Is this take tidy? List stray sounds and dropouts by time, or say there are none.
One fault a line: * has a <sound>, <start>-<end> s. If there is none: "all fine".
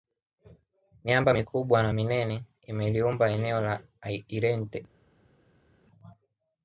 all fine